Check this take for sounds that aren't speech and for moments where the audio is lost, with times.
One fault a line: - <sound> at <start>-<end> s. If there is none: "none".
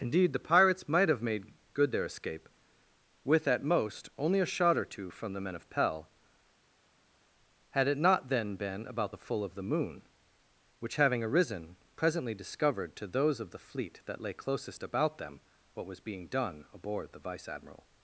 none